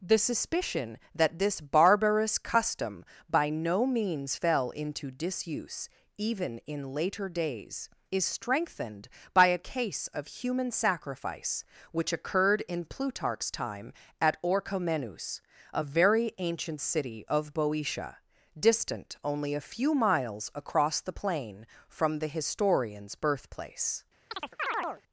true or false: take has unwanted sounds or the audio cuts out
true